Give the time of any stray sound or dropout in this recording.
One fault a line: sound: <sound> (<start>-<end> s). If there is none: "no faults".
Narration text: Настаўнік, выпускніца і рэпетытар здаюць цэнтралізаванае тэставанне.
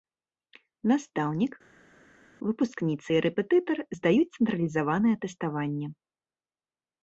no faults